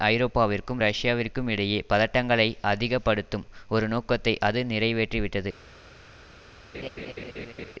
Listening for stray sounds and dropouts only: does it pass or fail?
fail